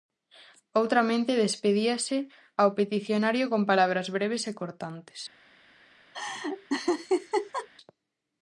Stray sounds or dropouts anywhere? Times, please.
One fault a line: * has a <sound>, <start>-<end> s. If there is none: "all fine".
* has a laugh, 6.1-7.7 s